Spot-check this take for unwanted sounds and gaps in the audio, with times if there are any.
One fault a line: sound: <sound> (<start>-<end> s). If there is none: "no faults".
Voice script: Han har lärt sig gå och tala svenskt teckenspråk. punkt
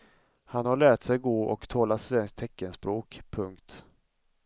no faults